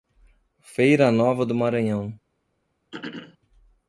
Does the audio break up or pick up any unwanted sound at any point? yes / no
yes